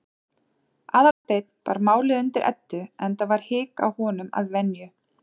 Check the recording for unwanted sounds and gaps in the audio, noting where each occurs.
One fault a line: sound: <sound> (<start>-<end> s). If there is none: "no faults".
sound: dropout (1.1-1.2 s)